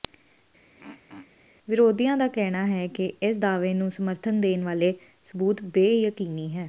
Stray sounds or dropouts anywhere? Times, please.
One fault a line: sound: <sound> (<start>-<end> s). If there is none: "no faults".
sound: throat clearing (0.7-1.3 s)